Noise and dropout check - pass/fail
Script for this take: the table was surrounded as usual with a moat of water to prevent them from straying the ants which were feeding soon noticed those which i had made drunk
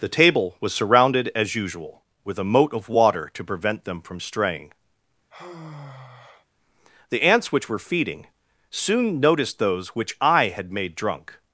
fail